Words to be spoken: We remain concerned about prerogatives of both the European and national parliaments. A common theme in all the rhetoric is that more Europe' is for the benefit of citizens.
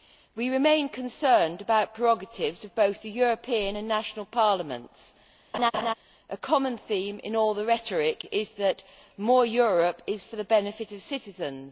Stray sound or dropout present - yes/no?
yes